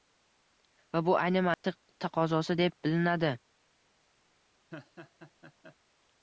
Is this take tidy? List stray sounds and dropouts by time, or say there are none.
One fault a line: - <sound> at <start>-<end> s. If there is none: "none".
- dropout at 1.5-1.6 s
- laugh at 4.7-5.8 s